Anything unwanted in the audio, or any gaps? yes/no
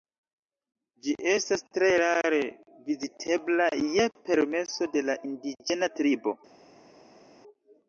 no